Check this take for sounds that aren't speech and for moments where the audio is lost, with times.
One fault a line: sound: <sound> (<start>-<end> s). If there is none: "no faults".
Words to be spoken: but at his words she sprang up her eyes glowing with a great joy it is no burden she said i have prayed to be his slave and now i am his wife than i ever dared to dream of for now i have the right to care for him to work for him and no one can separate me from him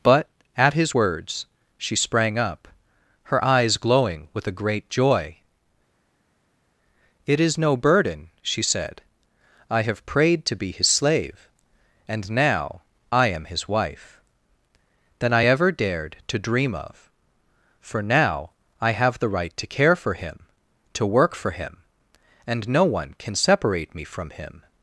no faults